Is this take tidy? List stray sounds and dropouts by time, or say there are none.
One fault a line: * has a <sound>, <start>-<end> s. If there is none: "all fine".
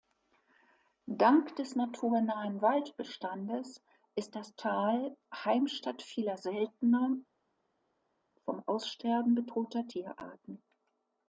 all fine